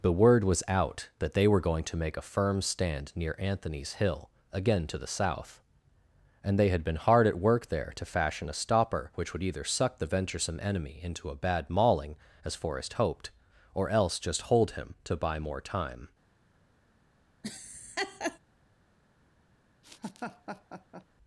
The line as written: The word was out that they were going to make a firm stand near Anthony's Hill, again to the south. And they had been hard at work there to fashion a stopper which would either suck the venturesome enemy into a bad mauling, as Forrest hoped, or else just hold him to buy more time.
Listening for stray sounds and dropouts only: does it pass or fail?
fail